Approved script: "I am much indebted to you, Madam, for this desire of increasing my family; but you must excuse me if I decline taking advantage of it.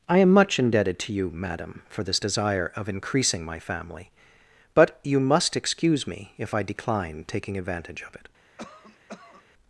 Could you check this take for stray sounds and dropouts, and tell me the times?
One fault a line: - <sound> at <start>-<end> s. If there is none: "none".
- cough at 8.6-9.4 s